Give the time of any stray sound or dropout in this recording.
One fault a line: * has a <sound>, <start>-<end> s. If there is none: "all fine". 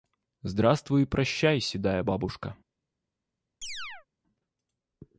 * has a chirp, 3.6-4.1 s